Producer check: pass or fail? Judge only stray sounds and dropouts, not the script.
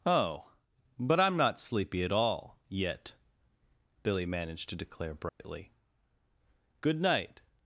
fail